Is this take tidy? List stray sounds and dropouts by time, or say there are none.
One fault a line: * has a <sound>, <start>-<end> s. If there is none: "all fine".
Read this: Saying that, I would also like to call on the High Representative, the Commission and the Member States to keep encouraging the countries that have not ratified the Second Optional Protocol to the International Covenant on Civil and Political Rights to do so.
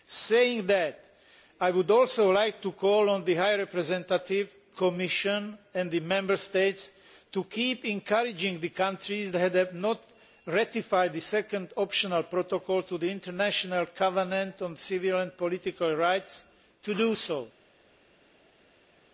all fine